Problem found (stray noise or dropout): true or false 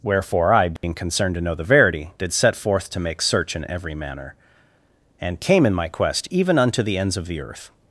true